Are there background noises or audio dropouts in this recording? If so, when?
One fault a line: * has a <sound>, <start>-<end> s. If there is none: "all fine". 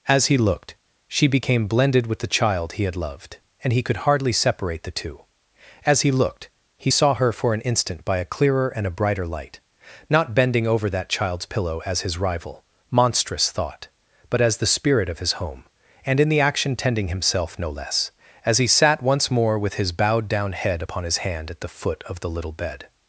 all fine